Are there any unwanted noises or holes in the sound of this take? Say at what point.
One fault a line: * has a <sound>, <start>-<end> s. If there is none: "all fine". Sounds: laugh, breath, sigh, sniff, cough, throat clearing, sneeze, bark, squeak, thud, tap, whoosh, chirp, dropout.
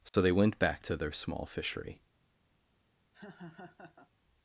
* has a dropout, 0.1-0.1 s
* has a laugh, 3.1-4.1 s